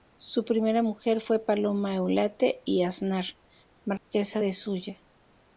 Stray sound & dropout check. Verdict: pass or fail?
fail